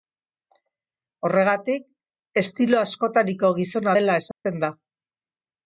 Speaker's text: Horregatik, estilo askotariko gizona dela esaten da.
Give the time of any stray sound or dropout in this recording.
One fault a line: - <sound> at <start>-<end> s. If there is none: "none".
- dropout at 4.3-4.4 s